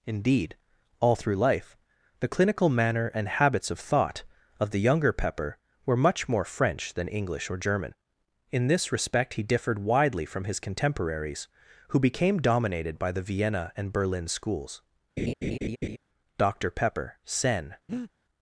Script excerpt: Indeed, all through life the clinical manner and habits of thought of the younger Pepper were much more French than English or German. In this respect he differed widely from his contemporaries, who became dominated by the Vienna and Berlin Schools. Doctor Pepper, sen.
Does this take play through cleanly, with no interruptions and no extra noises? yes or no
no